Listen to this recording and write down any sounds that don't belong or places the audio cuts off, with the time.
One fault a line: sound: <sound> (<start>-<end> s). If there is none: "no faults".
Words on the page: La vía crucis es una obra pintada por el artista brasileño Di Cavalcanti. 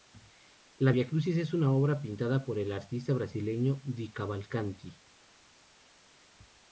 no faults